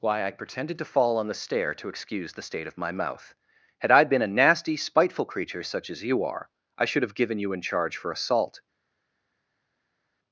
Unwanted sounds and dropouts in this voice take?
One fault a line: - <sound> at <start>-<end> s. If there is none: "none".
none